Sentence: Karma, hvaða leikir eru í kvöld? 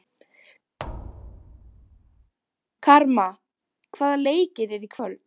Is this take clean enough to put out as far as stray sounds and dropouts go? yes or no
no